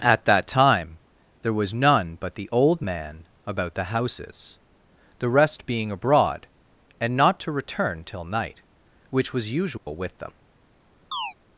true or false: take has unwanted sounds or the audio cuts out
true